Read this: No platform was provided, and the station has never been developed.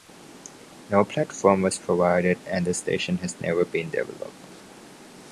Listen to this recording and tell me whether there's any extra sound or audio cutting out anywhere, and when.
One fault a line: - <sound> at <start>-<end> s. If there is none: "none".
none